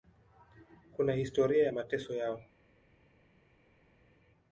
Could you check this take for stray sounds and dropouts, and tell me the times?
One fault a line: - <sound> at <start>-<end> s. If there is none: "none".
none